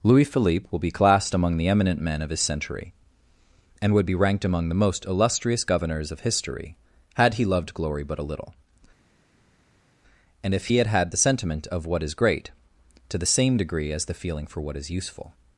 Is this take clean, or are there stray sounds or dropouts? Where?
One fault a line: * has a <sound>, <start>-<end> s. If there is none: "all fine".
all fine